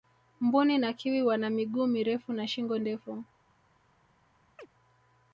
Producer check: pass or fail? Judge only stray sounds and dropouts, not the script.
fail